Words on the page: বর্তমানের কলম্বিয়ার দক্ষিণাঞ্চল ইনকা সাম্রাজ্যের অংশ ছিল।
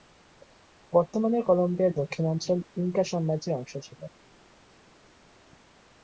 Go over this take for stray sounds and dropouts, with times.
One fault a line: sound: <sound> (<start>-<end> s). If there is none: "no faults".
no faults